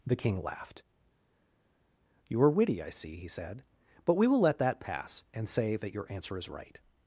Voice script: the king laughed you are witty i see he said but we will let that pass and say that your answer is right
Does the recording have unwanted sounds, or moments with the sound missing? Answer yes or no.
no